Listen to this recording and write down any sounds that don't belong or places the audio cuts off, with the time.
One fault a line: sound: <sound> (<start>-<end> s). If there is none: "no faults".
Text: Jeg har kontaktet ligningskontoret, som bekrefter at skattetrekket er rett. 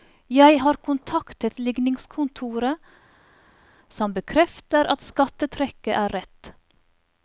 no faults